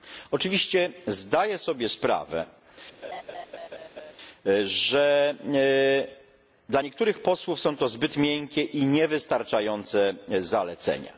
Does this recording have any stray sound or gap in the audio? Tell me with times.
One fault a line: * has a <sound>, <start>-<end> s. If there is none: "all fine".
* has a laugh, 3.0-4.1 s